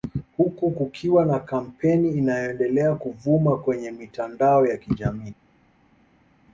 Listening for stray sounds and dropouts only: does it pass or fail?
pass